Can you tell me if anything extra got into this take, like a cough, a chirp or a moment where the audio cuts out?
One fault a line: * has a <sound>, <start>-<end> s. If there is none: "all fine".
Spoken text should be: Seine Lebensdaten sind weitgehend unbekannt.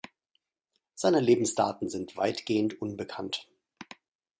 all fine